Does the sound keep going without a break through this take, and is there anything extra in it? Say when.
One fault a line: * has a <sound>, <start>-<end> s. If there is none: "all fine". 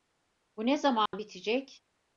* has a dropout, 1.1-1.1 s